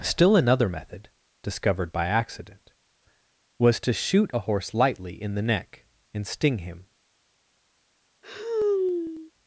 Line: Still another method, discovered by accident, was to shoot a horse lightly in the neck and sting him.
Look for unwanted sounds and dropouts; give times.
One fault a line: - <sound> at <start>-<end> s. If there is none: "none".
- sigh at 8.2-9.3 s